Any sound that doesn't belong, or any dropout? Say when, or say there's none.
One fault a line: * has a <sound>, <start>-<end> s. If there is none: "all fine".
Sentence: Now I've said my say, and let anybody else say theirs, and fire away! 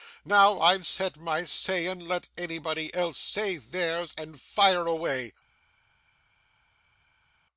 all fine